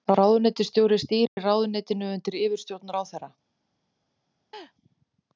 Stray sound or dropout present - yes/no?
yes